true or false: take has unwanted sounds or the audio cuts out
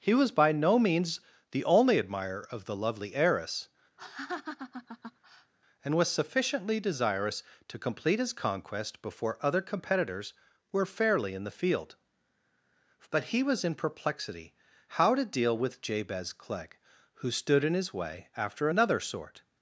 true